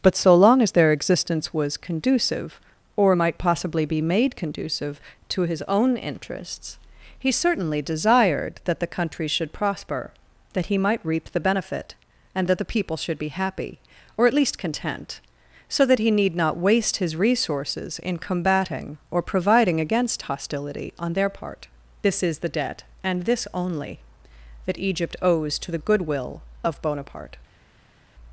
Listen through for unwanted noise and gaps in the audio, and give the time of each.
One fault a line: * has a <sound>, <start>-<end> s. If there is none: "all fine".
all fine